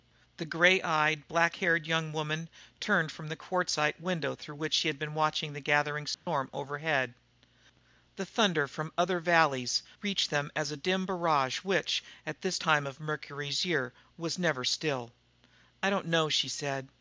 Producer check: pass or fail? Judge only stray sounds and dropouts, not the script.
fail